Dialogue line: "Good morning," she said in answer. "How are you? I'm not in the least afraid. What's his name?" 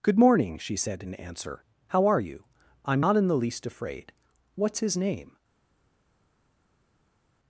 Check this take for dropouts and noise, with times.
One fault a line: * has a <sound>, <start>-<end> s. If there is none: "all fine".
all fine